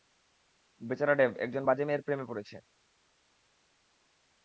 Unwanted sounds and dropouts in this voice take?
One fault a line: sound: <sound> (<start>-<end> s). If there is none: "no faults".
no faults